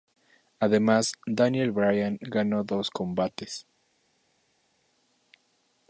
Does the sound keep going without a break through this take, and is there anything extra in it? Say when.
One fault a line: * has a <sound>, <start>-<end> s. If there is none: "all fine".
all fine